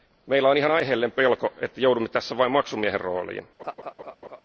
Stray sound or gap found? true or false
true